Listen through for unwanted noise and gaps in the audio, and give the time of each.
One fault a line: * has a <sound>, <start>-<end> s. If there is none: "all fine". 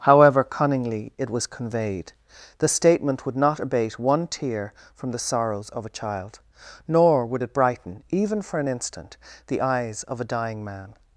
all fine